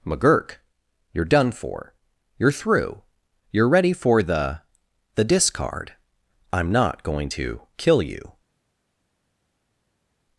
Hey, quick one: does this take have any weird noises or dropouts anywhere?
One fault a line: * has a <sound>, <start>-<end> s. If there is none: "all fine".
all fine